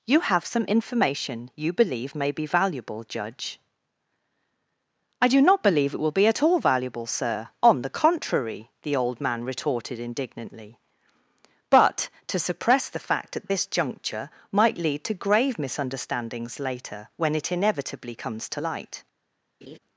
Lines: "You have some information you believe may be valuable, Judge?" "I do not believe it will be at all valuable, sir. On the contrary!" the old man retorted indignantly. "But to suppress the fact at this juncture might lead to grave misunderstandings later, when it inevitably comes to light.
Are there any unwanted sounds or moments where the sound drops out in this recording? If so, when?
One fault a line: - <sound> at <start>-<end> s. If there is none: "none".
- laugh at 19.6-19.8 s